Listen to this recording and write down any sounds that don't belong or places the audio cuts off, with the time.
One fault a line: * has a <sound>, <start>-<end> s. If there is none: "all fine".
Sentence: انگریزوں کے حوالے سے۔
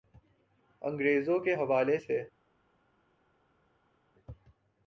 all fine